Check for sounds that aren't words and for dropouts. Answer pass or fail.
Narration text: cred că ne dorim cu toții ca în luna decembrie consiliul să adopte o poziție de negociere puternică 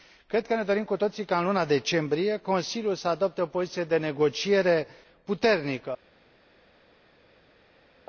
pass